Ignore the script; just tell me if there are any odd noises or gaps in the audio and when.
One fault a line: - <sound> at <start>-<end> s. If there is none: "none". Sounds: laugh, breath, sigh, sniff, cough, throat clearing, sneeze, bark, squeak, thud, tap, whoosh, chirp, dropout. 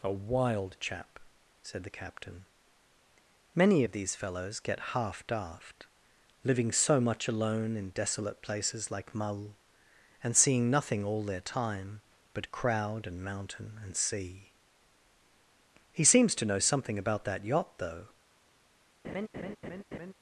- laugh at 19.0-20.1 s